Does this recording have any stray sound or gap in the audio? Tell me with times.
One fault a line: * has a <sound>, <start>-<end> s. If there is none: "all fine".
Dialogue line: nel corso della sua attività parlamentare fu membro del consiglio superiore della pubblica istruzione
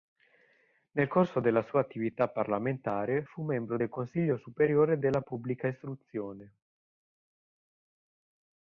all fine